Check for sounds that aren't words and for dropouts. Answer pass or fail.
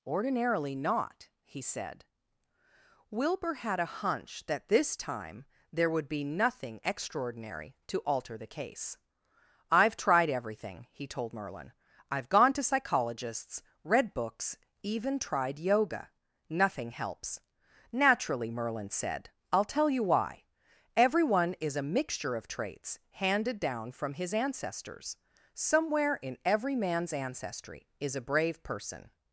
pass